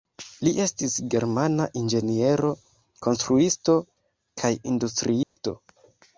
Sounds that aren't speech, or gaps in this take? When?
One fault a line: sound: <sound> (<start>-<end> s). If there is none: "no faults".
sound: dropout (5.2-5.4 s)